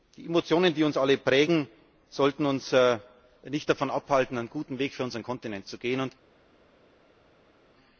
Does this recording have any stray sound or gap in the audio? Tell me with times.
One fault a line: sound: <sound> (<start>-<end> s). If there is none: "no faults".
no faults